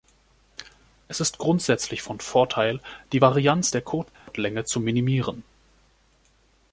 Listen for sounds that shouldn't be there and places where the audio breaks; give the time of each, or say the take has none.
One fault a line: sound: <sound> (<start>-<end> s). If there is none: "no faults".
sound: dropout (4.1-4.3 s)